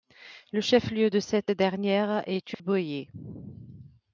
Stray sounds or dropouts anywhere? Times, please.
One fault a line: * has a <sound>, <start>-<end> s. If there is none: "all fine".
* has a dropout, 2.5-2.6 s